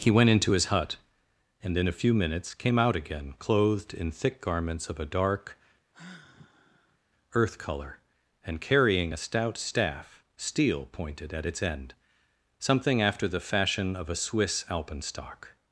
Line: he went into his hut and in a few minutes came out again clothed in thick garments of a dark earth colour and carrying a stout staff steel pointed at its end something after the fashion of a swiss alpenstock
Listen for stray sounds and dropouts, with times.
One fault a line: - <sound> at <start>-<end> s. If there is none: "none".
- sigh at 5.9-7.0 s